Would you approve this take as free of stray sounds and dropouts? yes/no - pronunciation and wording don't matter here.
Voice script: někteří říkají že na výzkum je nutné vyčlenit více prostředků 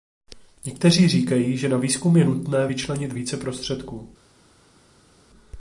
yes